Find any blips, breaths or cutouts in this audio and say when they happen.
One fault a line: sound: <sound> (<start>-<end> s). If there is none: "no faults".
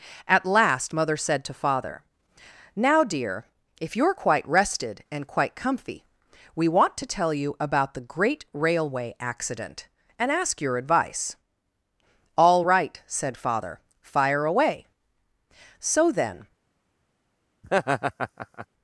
sound: laugh (17.6-18.7 s)